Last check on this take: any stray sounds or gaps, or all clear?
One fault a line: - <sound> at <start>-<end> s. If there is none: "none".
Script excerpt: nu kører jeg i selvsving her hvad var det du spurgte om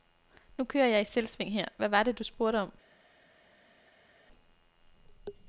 none